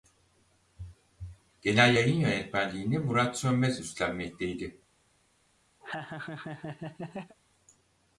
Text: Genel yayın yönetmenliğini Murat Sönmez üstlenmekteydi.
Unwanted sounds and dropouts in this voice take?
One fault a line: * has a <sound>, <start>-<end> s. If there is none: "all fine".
* has a laugh, 5.8-7.4 s